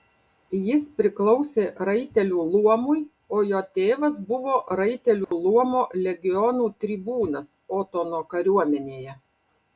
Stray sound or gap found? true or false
true